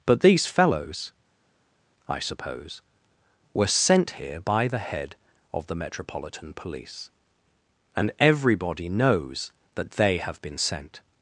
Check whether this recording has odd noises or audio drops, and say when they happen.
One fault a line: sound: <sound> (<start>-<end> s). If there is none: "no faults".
no faults